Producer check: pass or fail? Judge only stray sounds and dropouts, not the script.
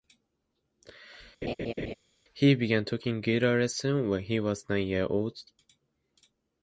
fail